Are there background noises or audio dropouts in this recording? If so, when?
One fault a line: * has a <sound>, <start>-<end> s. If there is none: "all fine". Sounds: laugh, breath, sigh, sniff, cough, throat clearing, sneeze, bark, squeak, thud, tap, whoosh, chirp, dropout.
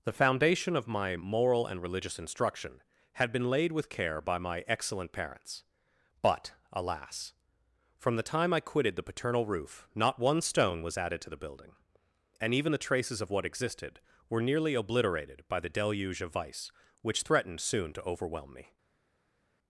all fine